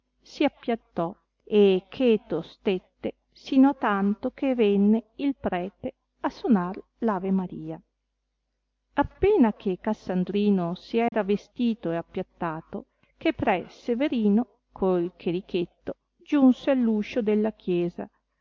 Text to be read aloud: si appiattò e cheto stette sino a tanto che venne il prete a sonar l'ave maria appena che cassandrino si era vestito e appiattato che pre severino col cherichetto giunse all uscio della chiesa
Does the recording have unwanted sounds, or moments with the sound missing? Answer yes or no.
yes